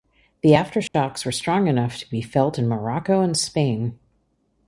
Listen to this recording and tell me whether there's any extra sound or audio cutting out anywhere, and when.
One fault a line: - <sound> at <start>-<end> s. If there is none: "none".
- dropout at 0.9-0.9 s